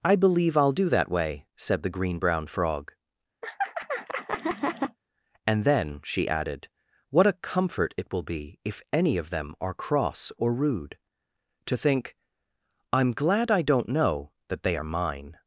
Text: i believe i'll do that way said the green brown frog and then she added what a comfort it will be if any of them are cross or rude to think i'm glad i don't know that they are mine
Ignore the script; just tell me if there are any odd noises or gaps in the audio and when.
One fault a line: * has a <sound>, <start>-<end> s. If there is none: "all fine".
* has a laugh, 3.4-5.0 s